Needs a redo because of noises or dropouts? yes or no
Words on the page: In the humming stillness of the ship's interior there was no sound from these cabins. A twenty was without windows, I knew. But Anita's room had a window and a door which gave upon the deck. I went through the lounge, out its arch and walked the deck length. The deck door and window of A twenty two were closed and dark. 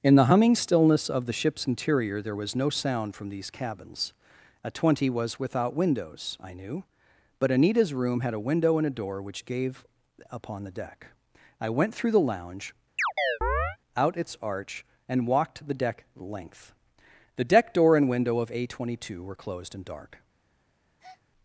yes